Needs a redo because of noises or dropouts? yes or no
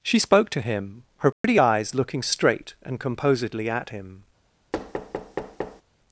yes